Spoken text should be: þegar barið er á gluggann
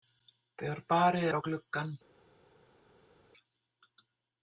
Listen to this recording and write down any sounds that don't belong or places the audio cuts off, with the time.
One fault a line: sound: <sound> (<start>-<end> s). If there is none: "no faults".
no faults